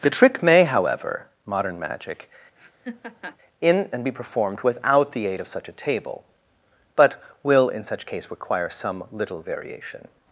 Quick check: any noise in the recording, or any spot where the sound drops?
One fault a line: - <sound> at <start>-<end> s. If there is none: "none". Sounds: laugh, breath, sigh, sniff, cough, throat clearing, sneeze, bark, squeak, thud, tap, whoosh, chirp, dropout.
- laugh at 2.6-3.4 s